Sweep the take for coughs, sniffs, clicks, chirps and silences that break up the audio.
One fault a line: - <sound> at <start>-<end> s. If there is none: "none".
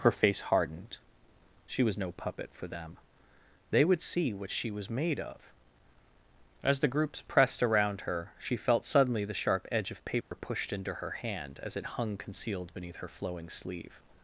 - dropout at 10.2-10.3 s